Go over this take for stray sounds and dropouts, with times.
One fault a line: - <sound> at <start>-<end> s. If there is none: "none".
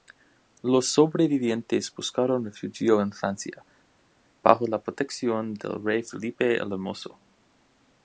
none